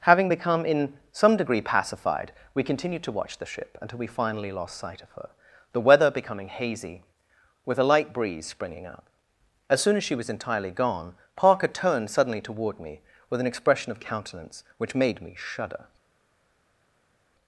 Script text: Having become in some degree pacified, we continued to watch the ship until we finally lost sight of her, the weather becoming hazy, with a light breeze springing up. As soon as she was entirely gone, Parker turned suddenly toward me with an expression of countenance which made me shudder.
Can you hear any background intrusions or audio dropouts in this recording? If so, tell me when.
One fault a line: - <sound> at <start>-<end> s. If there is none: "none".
none